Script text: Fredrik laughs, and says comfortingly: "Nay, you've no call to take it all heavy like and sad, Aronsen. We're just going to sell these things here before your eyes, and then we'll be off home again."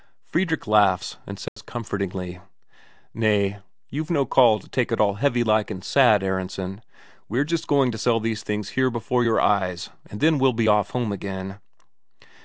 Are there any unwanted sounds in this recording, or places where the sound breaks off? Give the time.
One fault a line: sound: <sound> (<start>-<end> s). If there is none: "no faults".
sound: dropout (1.5-1.6 s)